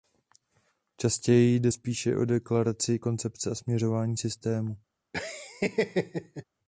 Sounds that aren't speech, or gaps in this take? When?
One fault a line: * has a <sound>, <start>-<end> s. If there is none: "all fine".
* has a laugh, 5.1-6.4 s